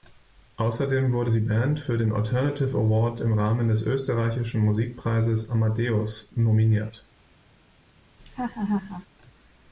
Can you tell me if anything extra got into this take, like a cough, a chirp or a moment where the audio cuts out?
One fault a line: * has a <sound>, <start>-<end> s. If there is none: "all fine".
* has a laugh, 8.2-9.1 s